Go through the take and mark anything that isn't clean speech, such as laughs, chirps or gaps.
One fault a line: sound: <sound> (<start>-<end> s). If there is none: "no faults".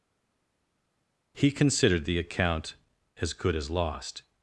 no faults